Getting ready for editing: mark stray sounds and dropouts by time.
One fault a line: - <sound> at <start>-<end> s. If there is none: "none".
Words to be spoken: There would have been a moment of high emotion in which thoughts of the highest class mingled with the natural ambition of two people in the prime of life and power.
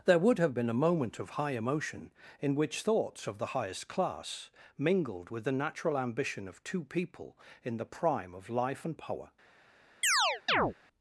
- chirp at 10.0-10.7 s